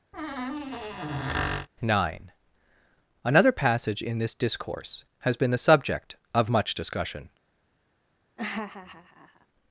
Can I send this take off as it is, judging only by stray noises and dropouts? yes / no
no